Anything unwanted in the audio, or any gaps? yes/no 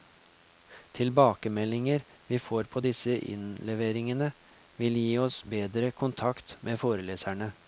no